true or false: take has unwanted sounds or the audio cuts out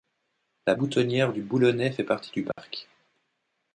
true